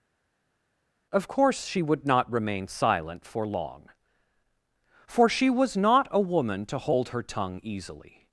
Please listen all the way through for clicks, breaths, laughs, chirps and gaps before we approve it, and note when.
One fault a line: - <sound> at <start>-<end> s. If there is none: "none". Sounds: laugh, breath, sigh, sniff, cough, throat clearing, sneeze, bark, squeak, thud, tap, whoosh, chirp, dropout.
none